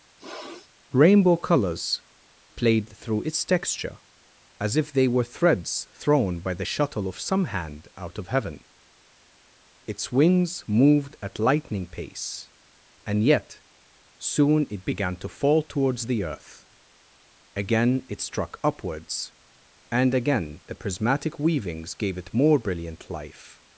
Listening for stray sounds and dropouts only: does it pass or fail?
fail